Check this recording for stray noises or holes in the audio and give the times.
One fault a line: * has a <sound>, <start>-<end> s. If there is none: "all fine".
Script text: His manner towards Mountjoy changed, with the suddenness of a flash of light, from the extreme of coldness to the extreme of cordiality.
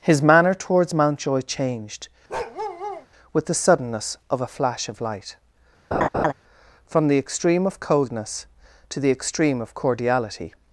* has a bark, 2.3-3.1 s
* has a laugh, 5.9-6.3 s